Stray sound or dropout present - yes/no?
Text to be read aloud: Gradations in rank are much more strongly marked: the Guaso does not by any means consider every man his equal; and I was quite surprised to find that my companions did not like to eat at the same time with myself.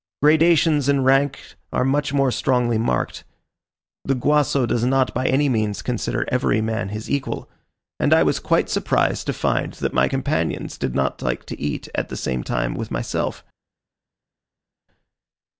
no